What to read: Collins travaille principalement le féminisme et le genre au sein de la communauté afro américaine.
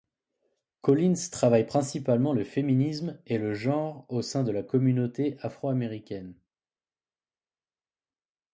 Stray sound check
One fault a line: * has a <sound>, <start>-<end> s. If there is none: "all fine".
all fine